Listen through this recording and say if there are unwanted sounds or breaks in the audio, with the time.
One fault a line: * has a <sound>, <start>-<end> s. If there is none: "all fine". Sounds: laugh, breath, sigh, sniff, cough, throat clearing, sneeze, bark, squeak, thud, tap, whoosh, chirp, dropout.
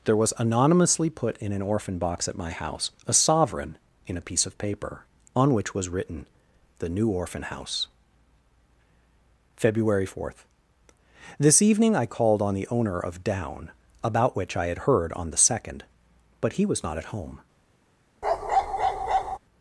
* has a bark, 18.2-19.4 s